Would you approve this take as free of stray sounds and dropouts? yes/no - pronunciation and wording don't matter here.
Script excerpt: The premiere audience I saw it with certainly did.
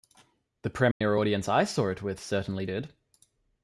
no